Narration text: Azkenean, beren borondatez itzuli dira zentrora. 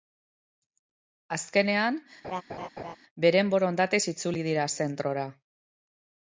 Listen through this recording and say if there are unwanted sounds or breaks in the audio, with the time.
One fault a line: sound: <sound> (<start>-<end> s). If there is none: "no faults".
sound: laugh (2.2-3.0 s)